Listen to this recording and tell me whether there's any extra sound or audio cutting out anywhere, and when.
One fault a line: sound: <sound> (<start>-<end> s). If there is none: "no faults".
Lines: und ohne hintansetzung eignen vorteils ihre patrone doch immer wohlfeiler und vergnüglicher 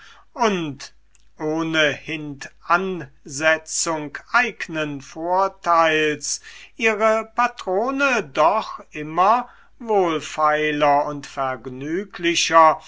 no faults